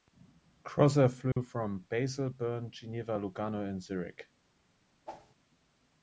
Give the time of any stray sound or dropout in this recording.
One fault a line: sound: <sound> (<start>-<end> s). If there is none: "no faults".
sound: dropout (1.3-1.4 s)
sound: whoosh (5.1-5.3 s)